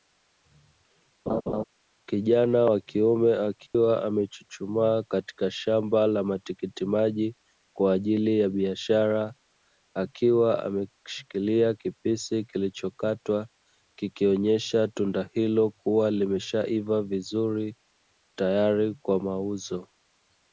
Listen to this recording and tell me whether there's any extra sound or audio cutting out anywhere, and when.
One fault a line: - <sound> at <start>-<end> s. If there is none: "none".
- laugh at 1.3-1.6 s
- dropout at 3.7-3.7 s